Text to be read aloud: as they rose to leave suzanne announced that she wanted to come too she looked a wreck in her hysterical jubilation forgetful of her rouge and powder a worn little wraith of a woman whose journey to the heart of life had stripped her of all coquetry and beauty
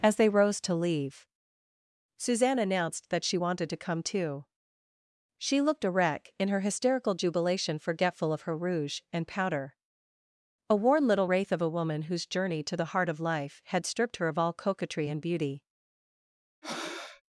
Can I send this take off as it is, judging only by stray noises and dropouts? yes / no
no